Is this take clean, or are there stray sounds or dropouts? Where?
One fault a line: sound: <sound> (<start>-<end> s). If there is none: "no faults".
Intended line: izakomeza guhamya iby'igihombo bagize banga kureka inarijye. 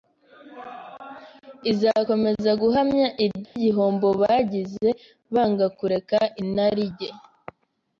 sound: dropout (3.4-3.6 s)